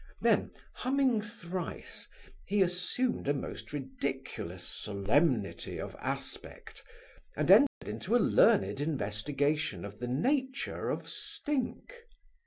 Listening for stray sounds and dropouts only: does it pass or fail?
fail